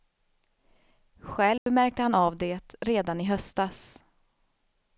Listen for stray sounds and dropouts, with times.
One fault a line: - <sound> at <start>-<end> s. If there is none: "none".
- dropout at 1.6-1.7 s